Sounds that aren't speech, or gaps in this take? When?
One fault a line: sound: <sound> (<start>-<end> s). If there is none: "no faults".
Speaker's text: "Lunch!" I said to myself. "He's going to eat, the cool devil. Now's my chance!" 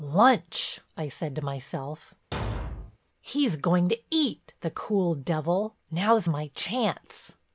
sound: thud (2.3-3.0 s)